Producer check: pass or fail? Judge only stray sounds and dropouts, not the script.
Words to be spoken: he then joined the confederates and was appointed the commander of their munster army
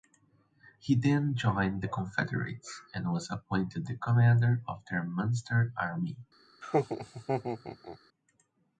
fail